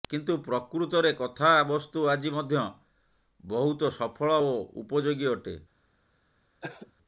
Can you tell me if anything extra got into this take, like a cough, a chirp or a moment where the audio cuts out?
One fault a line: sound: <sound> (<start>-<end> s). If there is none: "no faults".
sound: cough (6.6-6.9 s)